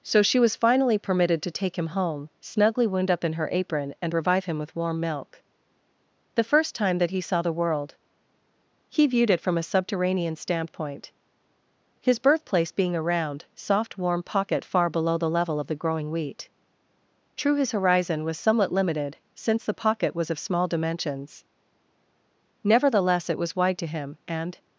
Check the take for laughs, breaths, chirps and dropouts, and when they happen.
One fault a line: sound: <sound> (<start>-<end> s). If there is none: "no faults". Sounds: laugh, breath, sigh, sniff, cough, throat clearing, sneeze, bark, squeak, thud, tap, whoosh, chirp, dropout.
no faults